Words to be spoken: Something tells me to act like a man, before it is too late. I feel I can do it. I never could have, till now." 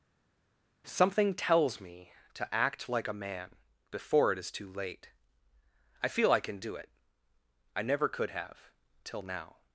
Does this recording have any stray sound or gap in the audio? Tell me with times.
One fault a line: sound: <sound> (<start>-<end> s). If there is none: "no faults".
no faults